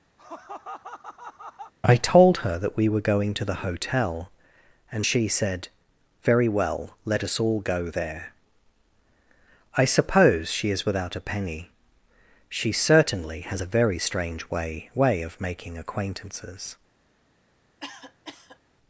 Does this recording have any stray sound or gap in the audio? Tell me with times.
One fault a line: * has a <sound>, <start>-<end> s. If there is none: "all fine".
* has a laugh, 0.2-1.7 s
* has a cough, 17.8-18.6 s